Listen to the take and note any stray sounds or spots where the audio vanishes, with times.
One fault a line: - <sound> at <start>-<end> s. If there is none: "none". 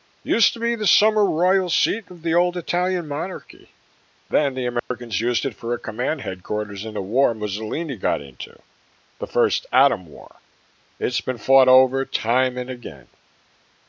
- dropout at 4.8-4.9 s